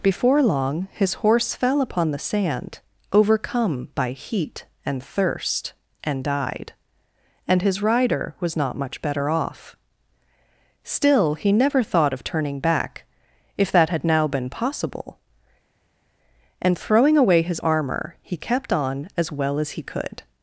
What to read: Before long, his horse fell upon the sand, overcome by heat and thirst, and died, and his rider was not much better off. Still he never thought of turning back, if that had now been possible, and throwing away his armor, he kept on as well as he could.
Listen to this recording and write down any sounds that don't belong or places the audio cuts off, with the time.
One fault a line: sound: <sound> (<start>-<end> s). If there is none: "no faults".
no faults